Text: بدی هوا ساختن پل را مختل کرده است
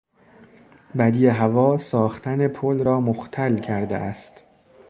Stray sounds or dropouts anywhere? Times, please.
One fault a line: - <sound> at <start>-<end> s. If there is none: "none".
none